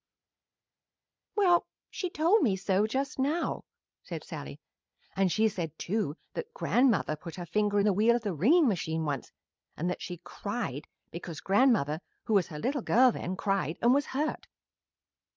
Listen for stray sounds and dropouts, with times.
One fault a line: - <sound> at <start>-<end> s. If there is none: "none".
none